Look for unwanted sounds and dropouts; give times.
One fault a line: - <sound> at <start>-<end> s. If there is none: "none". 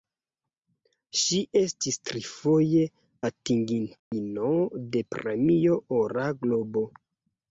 - dropout at 4.0-4.1 s